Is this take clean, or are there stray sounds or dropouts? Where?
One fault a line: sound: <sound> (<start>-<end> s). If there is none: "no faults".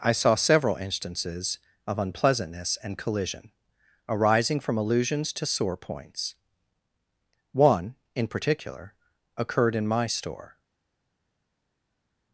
no faults